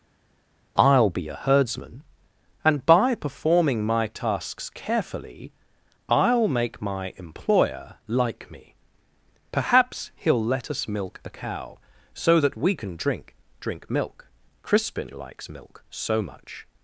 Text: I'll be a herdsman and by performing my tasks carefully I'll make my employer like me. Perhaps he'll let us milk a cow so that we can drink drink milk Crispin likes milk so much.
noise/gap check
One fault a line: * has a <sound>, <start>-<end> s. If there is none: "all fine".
all fine